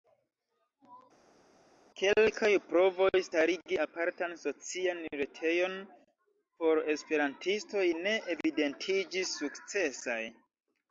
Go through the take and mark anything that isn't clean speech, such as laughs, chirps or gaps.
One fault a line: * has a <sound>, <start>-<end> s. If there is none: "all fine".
all fine